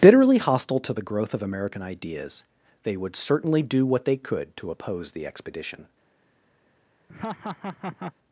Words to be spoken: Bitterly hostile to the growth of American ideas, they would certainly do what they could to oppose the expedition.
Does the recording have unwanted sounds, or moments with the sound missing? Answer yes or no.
yes